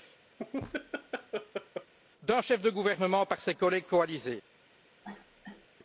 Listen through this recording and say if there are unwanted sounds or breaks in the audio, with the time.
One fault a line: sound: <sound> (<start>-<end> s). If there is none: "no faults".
sound: laugh (0.4-1.9 s)
sound: cough (5.0-5.7 s)